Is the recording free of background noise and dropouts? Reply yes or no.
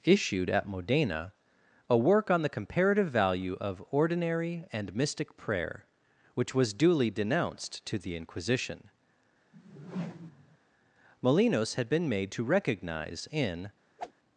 no